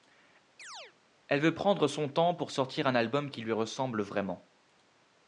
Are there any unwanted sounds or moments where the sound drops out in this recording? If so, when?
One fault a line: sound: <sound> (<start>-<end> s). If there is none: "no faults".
sound: chirp (0.6-0.9 s)